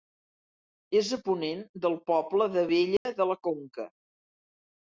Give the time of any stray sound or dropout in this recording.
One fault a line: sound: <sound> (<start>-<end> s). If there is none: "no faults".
sound: dropout (3.0-3.1 s)